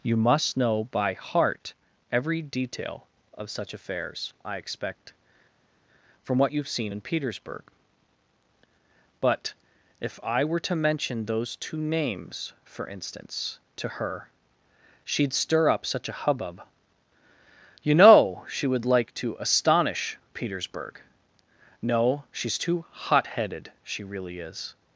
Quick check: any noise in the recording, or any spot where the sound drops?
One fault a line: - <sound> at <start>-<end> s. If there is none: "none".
none